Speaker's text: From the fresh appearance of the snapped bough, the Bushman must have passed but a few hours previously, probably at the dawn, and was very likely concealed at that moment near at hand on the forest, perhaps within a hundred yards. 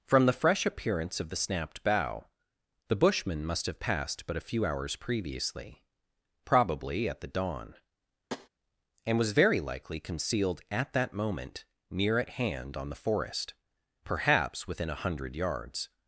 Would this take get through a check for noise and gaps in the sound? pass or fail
fail